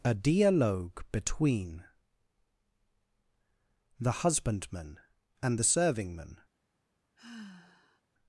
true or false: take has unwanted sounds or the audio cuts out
true